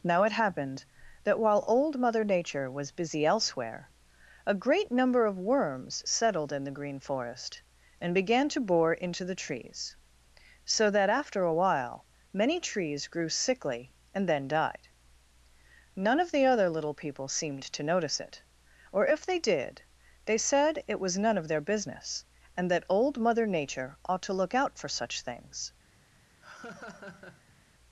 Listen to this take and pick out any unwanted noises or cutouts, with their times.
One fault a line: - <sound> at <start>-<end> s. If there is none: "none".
- laugh at 26.4-27.6 s